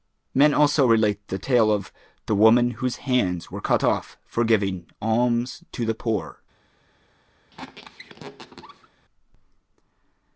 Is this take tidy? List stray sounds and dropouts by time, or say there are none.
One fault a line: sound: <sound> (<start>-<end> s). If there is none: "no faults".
sound: squeak (7.5-8.9 s)